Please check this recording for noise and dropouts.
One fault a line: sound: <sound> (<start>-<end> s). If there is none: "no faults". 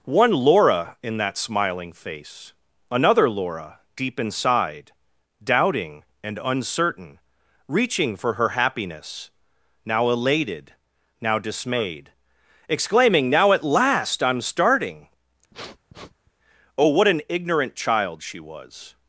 sound: sniff (15.5-16.3 s)